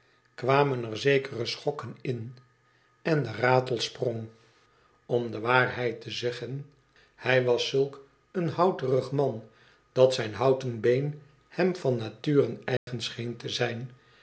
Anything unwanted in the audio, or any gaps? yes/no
yes